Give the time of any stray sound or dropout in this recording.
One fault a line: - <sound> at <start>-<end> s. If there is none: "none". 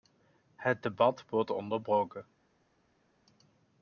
none